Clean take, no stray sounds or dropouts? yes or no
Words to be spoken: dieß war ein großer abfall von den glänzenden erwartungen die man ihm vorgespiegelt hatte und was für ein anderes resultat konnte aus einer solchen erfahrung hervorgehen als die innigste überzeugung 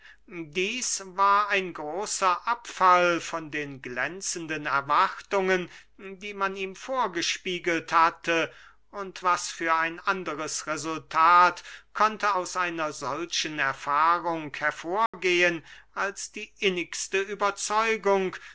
no